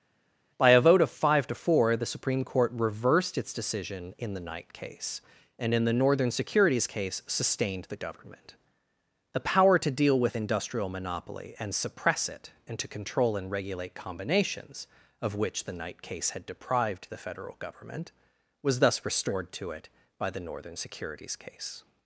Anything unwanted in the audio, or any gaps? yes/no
no